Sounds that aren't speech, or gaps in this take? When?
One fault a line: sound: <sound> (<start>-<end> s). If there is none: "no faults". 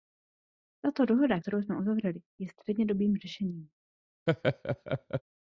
sound: laugh (4.3-5.2 s)